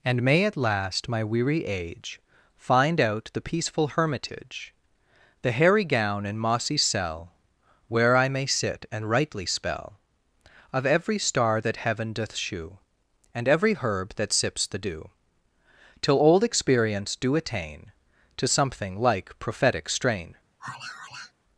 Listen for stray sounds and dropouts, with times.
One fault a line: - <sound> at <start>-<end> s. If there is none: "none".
- sigh at 20.6-21.3 s